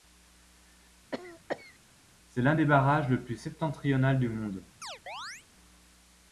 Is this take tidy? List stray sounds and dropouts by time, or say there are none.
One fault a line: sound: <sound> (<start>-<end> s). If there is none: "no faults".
sound: cough (1.1-1.8 s)
sound: chirp (4.8-5.5 s)